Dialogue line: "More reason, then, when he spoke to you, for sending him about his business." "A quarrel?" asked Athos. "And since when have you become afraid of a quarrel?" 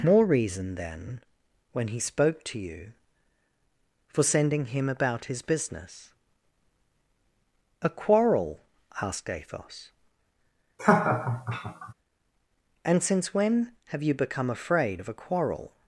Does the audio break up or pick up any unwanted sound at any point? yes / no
yes